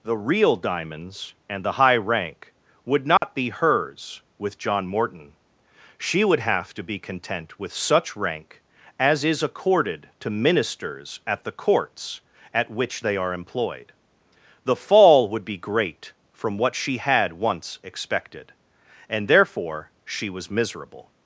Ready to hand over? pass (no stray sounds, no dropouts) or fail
fail